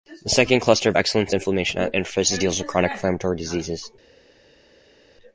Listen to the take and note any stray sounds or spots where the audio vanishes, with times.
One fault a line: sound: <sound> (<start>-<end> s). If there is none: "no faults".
no faults